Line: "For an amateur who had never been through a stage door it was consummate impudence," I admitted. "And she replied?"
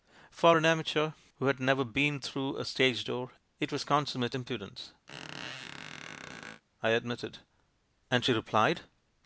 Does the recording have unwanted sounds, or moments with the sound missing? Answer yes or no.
yes